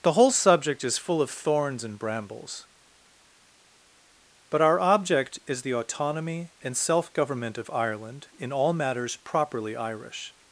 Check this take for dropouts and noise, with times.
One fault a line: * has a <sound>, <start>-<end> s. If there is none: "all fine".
all fine